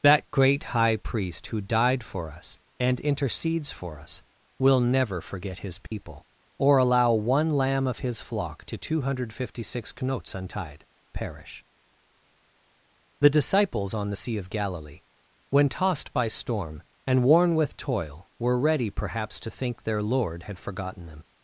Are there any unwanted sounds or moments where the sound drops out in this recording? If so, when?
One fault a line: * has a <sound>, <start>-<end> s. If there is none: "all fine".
* has a dropout, 5.9-5.9 s